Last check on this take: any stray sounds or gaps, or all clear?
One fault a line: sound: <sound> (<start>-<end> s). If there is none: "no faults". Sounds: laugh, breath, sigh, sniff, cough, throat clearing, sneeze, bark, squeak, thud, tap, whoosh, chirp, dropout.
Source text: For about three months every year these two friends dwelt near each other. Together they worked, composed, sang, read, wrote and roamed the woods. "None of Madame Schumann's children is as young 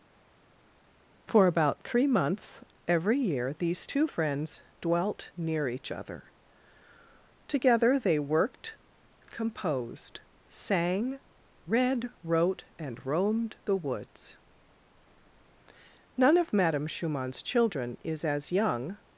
no faults